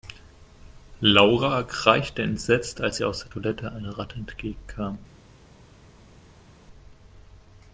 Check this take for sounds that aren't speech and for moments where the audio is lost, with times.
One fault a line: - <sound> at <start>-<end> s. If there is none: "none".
none